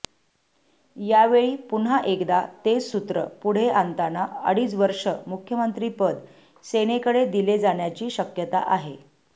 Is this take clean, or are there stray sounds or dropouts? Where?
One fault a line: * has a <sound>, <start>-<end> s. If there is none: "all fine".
all fine